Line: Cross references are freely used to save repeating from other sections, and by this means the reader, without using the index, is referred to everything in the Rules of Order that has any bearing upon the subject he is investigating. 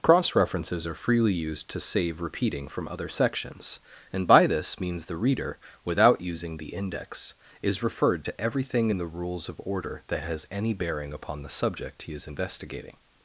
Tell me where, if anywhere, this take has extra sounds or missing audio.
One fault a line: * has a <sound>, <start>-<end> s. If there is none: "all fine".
all fine